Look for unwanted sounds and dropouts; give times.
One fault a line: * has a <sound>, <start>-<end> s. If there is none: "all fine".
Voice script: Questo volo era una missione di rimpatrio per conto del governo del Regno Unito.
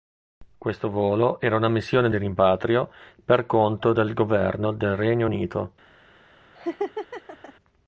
* has a laugh, 6.6-7.5 s